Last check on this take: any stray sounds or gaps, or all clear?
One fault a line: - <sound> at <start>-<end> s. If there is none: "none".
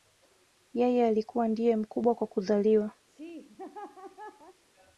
- laugh at 3.1-4.6 s